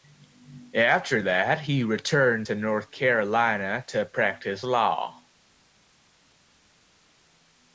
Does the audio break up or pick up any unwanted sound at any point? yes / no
no